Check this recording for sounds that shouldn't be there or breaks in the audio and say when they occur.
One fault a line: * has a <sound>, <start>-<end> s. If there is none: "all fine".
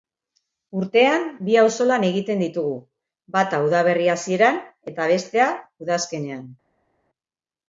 all fine